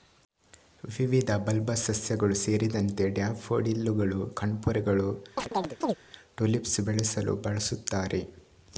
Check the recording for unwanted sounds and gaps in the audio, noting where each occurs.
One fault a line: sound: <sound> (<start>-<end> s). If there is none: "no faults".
sound: chirp (5.4-6.0 s)